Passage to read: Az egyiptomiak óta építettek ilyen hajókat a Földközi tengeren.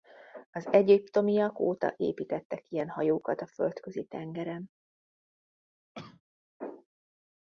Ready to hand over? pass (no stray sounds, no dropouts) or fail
fail